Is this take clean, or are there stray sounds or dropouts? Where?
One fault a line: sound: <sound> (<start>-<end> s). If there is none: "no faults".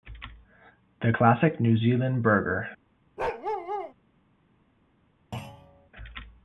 sound: bark (3.2-3.9 s)
sound: thud (5.3-5.9 s)